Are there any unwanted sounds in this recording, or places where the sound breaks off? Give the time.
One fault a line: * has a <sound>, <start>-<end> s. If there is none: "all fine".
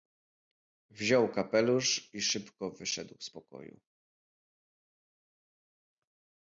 all fine